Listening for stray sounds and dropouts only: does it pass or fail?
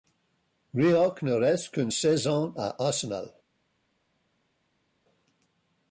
pass